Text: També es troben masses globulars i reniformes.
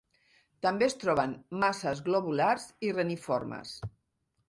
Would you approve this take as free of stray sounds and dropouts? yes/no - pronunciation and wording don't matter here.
yes